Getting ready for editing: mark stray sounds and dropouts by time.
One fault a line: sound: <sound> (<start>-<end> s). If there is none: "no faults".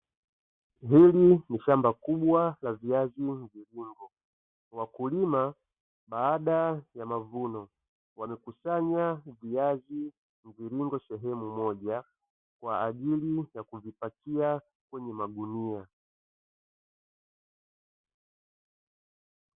no faults